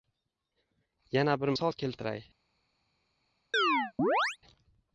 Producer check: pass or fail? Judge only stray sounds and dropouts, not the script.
fail